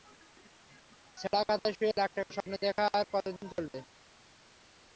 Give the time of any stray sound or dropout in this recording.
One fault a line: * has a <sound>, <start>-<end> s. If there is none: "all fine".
all fine